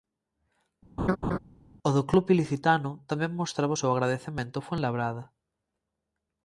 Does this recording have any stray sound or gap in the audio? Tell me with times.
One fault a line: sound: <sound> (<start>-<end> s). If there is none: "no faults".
sound: laugh (1.0-1.4 s)